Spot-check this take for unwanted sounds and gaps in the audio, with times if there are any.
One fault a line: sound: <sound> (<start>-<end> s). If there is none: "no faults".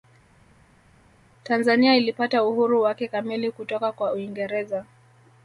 no faults